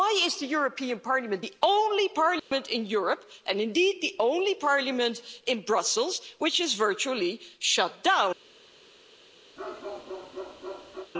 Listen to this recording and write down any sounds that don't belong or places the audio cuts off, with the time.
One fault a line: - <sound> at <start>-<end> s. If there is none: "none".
- dropout at 2.4-2.5 s
- bark at 9.6-11.1 s